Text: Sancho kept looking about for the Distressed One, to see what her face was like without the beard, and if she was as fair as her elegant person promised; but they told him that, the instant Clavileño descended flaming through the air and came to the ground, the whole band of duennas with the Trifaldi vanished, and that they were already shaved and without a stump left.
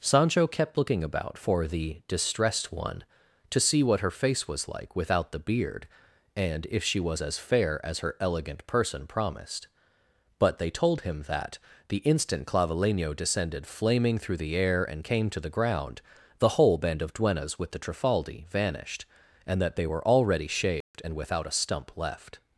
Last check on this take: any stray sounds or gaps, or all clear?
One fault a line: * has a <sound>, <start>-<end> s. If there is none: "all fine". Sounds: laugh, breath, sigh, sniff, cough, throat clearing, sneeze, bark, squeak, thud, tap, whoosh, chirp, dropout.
* has a dropout, 20.8-20.9 s